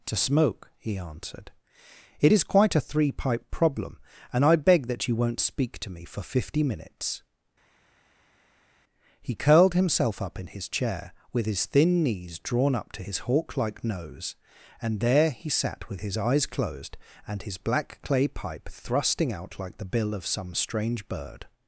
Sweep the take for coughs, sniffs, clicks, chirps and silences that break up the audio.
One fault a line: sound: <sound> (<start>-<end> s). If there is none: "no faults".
no faults